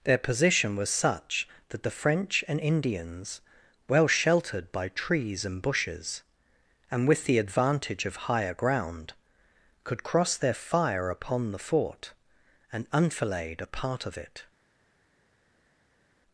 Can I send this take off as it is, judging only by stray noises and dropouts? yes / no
yes